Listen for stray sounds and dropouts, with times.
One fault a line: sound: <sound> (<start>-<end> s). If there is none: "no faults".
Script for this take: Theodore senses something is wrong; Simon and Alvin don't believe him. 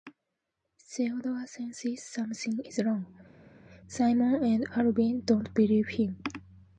no faults